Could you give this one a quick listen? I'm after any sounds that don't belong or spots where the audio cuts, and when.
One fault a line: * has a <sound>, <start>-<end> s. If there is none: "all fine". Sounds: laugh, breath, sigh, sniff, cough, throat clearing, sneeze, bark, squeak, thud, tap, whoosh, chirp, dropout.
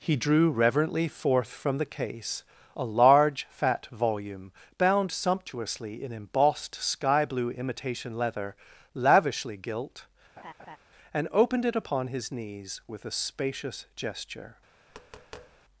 * has a laugh, 10.4-10.8 s
* has a tap, 14.9-15.7 s